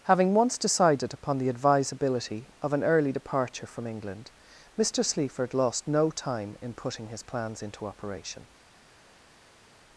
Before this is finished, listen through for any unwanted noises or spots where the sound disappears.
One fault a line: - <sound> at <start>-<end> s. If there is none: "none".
none